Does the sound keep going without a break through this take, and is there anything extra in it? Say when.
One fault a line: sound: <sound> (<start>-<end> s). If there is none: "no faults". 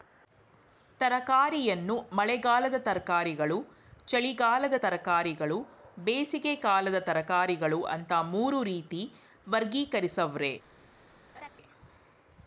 sound: laugh (11.3-11.5 s)